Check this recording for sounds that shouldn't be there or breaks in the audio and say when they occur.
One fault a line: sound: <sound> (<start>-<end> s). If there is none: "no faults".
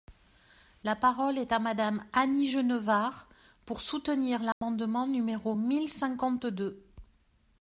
sound: dropout (4.5-4.6 s)